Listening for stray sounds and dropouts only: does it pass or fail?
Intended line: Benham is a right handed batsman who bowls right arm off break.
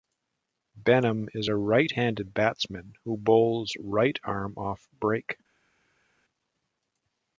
pass